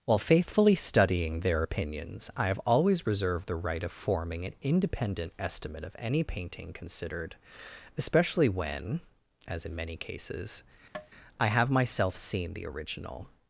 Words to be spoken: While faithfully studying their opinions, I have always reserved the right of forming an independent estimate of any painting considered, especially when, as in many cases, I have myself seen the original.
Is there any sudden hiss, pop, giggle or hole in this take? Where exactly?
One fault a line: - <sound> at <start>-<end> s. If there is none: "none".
- tap at 10.9-11.1 s